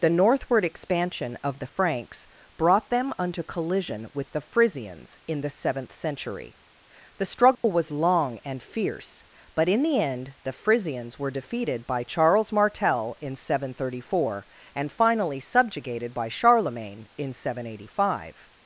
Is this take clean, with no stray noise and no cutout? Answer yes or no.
no